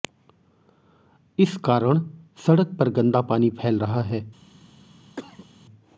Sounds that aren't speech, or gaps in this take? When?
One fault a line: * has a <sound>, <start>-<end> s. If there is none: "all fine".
* has a cough, 5.2-5.5 s